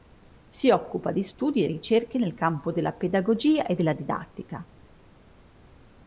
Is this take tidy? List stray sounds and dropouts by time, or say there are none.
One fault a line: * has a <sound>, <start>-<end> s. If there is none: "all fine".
all fine